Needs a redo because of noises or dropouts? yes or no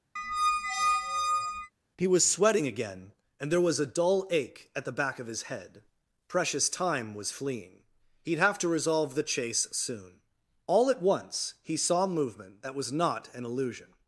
yes